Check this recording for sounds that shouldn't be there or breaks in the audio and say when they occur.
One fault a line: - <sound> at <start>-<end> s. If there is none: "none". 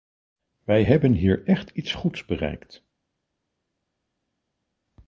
none